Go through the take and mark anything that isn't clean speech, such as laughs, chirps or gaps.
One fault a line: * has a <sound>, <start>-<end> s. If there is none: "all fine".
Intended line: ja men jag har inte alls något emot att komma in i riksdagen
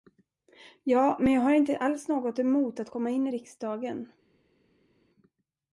all fine